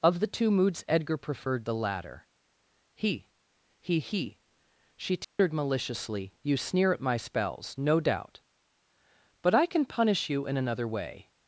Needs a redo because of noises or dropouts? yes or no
yes